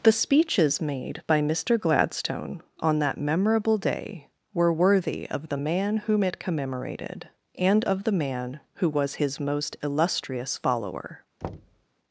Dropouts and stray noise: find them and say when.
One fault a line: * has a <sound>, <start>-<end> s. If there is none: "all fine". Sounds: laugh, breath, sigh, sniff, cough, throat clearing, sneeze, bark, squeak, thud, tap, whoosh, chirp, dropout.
* has a thud, 11.4-11.9 s